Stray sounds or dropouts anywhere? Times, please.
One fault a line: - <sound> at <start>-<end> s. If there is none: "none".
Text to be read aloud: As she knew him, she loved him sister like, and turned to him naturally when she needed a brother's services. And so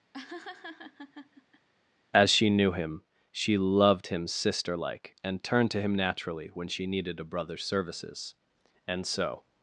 - laugh at 0.1-1.7 s